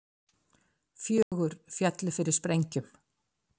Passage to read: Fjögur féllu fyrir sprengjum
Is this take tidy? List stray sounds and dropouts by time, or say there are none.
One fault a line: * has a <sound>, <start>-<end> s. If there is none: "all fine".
* has a dropout, 1.2-1.3 s